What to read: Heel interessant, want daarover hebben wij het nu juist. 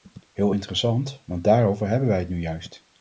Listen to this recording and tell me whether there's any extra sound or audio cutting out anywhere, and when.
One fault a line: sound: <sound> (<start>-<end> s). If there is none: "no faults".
no faults